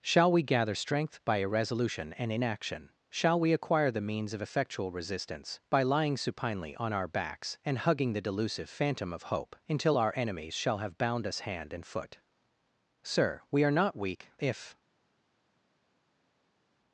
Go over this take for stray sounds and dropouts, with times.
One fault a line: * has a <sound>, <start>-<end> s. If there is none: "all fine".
all fine